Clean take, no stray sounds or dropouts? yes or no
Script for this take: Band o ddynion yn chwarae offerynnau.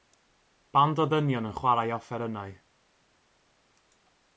yes